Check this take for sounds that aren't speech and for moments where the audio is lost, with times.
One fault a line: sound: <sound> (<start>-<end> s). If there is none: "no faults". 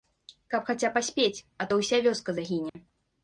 sound: dropout (2.7-2.8 s)